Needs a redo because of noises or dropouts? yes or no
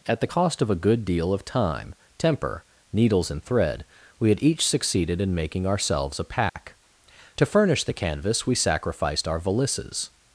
yes